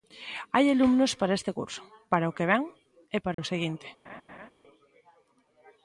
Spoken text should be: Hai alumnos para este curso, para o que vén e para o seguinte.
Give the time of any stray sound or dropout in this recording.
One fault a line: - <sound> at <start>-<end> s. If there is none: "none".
- dropout at 3.3-3.4 s
- laugh at 4.0-4.5 s